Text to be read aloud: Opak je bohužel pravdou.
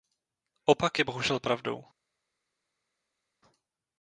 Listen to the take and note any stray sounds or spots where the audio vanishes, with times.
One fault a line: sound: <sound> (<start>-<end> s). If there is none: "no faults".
no faults